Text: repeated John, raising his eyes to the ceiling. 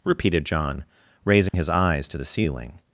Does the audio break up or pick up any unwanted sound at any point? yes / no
yes